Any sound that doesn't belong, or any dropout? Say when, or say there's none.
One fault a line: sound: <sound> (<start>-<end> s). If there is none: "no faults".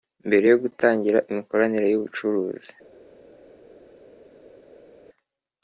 no faults